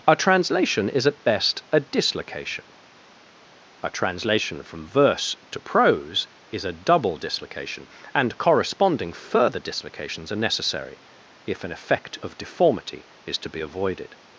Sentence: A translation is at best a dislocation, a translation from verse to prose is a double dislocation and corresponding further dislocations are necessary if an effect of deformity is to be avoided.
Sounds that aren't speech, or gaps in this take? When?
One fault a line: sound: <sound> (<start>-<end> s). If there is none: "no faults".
no faults